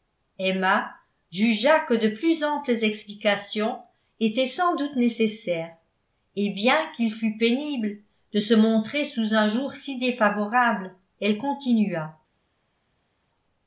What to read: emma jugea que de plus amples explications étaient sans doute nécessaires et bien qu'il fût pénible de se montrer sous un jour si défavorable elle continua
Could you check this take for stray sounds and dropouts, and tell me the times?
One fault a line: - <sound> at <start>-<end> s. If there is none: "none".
none